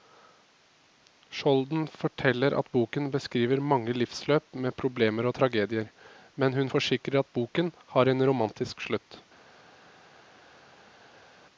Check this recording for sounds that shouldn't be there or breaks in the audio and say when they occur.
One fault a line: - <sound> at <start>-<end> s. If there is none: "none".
none